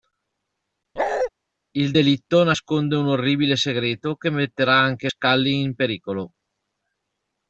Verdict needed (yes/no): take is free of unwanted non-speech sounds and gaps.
no